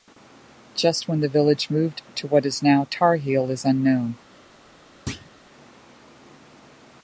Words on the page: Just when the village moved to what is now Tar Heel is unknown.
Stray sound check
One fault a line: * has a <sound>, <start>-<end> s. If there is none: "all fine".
* has a thud, 5.1-5.3 s